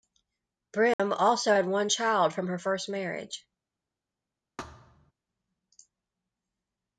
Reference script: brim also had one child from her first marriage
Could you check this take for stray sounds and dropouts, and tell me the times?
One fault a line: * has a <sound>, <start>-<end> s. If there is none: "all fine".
* has a dropout, 0.9-1.0 s
* has a thud, 4.6-5.1 s